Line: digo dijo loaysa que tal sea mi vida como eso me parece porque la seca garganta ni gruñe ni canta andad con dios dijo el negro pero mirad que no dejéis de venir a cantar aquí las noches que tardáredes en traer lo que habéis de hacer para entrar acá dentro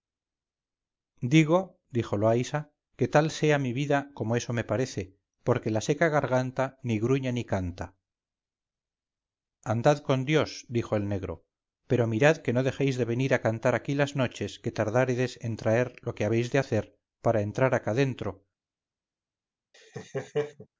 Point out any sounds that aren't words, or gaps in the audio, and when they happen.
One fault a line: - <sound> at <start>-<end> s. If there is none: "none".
- laugh at 19.7-20.7 s